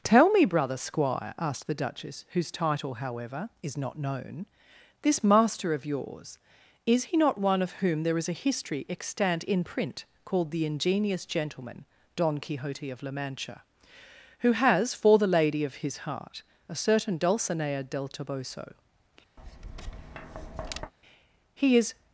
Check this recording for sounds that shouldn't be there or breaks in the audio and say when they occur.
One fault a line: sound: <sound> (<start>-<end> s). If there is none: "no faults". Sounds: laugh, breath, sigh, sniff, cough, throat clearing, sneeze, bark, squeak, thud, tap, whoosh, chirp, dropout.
sound: tap (19.4-20.9 s)